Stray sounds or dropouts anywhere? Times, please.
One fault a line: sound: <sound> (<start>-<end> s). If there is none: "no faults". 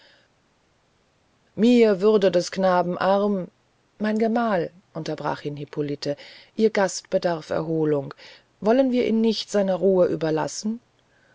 no faults